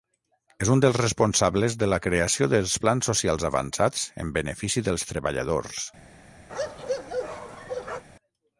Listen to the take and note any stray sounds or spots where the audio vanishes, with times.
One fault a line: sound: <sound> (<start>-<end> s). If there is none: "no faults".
sound: bark (6.5-8.0 s)